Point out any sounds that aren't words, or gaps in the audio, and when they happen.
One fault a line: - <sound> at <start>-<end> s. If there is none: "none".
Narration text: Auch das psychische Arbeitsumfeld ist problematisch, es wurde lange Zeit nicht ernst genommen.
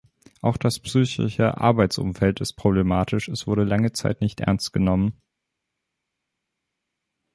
none